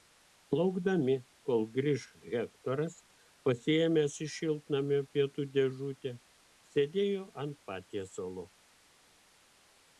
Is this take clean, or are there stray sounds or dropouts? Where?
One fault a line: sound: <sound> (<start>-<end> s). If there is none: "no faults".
no faults